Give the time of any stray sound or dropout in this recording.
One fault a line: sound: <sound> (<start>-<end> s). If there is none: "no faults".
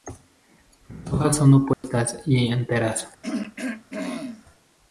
sound: dropout (1.7-1.8 s)
sound: throat clearing (3.2-4.4 s)